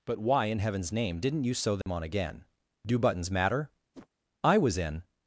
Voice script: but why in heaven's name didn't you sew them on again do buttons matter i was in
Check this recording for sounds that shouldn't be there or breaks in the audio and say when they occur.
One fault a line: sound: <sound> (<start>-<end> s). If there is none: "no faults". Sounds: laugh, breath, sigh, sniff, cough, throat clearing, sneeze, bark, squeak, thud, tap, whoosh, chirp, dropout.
sound: dropout (1.8-1.9 s)
sound: whoosh (3.9-4.1 s)